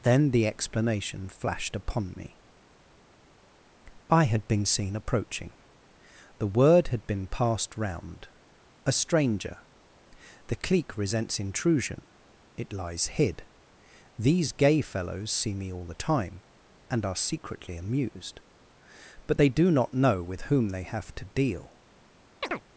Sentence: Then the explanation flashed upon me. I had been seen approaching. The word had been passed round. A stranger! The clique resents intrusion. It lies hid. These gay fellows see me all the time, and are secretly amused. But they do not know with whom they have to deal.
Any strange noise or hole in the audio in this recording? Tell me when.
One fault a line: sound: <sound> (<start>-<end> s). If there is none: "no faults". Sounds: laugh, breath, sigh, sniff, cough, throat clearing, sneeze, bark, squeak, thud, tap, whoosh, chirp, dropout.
sound: chirp (22.4-22.6 s)